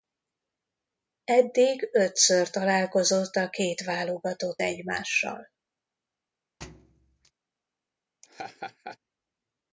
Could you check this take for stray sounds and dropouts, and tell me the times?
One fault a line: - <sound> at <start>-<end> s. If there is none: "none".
- thud at 6.6-7.3 s
- laugh at 8.2-9.0 s